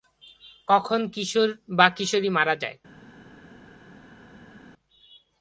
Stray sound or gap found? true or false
false